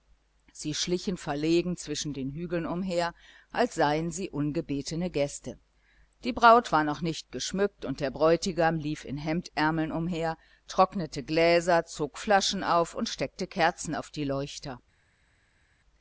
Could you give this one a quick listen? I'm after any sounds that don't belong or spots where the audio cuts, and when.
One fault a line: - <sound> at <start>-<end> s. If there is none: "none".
none